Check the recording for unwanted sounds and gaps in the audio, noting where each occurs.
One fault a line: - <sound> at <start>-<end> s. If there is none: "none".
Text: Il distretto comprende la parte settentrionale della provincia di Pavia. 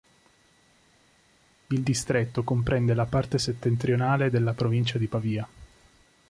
none